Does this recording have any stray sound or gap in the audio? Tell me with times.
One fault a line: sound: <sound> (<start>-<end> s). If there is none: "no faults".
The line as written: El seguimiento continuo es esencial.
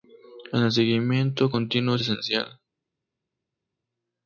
no faults